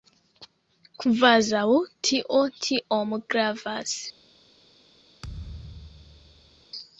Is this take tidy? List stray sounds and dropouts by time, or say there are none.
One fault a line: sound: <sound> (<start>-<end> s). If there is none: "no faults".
sound: thud (5.2-6.7 s)